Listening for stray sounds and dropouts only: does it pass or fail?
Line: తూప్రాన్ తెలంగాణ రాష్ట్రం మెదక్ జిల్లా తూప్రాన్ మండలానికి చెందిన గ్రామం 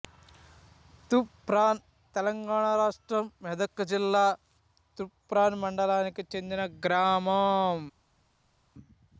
pass